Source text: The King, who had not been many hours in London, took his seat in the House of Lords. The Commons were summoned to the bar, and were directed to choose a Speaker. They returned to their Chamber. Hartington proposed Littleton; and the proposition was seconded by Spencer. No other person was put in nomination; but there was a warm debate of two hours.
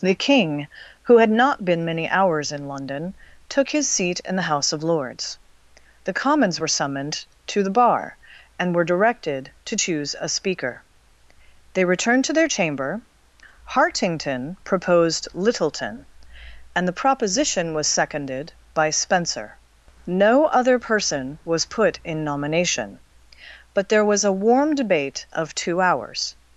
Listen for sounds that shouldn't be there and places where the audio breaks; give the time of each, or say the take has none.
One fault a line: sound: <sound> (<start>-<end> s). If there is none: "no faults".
no faults